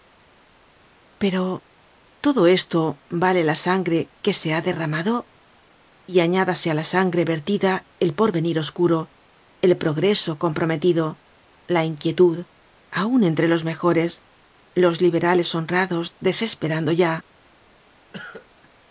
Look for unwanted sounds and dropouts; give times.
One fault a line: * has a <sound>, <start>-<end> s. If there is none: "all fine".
* has a cough, 18.1-18.5 s